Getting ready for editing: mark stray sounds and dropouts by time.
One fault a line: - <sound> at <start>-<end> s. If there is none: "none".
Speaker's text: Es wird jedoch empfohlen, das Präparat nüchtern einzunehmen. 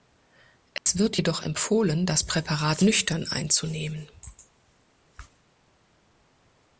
- dropout at 0.8-0.9 s